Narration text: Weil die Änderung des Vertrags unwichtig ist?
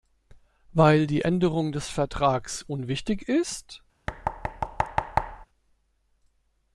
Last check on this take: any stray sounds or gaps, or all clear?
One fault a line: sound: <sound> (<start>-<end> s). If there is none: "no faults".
sound: thud (4.1-5.5 s)